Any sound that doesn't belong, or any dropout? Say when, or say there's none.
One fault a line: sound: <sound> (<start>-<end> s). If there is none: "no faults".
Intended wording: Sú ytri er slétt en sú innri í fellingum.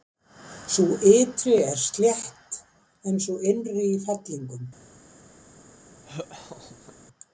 sound: laugh (6.0-6.9 s)